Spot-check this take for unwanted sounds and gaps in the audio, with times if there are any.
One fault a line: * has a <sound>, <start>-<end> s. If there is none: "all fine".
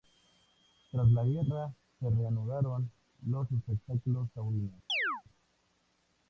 * has a chirp, 4.9-5.2 s